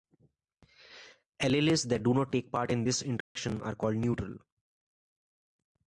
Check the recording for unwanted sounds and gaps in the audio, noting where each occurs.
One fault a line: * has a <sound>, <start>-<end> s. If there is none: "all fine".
* has a dropout, 3.2-3.4 s